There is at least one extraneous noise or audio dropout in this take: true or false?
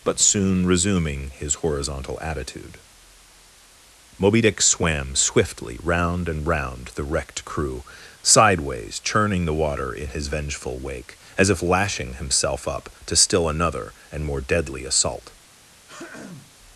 true